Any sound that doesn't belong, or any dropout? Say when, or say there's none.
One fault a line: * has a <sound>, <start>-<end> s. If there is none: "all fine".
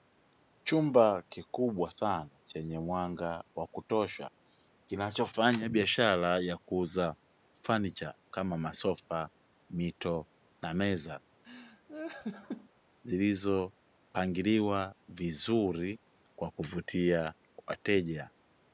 * has a laugh, 11.4-12.7 s